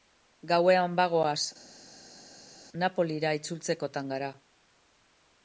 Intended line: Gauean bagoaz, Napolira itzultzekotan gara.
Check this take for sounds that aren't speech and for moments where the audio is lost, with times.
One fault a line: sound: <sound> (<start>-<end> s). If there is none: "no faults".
no faults